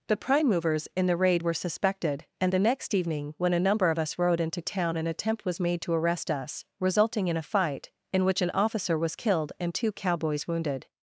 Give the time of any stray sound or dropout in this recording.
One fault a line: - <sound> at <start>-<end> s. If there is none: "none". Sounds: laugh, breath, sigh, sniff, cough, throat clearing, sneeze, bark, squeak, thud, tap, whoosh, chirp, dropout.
none